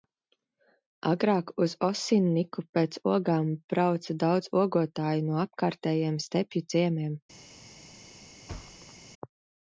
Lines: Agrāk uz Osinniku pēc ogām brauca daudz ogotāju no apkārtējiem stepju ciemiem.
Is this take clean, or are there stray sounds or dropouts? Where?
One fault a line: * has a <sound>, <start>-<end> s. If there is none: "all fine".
* has a thud, 8.5-8.9 s